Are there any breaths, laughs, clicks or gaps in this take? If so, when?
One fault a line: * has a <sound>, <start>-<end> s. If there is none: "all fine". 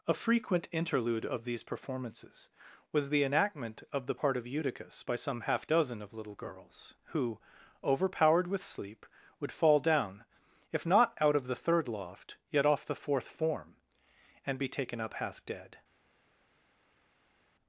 all fine